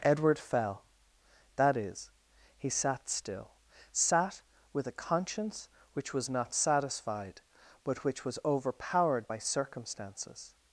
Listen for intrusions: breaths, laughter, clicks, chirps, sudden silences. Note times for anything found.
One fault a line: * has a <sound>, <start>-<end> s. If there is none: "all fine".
all fine